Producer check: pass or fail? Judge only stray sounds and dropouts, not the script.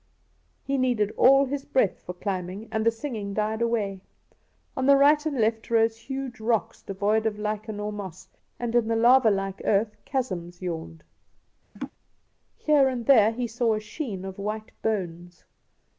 fail